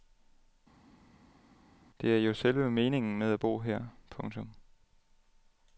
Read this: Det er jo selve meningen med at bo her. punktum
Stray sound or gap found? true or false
false